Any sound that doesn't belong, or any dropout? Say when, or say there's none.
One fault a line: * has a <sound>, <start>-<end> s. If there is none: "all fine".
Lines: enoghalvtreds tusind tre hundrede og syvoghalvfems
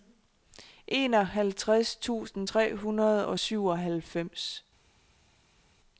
all fine